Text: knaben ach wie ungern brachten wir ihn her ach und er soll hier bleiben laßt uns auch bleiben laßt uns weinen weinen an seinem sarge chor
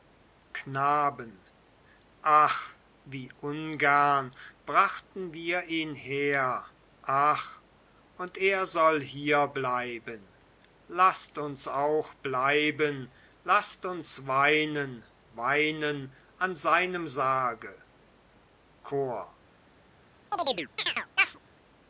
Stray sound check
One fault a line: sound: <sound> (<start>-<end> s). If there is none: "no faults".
sound: chirp (20.3-21.4 s)